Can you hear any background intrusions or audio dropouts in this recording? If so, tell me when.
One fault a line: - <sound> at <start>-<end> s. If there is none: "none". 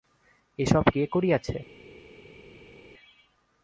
none